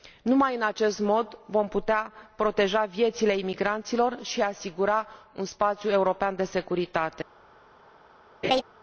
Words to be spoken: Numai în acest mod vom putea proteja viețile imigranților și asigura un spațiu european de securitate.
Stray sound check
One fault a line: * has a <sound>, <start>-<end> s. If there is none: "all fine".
* has a laugh, 8.4-8.6 s